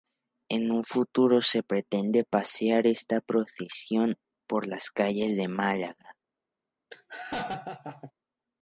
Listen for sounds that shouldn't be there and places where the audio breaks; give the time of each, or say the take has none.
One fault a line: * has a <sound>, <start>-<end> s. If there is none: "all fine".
* has a laugh, 6.9-8.1 s